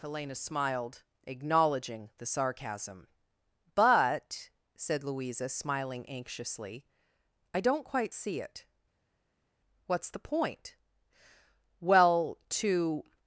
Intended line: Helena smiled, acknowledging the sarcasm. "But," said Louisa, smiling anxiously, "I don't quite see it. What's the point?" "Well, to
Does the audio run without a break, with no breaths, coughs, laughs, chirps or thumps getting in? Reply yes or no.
yes